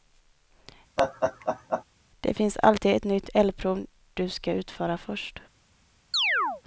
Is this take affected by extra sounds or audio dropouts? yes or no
yes